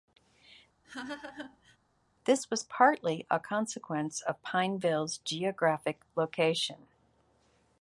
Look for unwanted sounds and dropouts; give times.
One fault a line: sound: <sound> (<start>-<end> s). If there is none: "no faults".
sound: laugh (0.8-1.8 s)